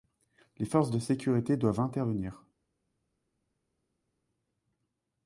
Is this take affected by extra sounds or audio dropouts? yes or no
no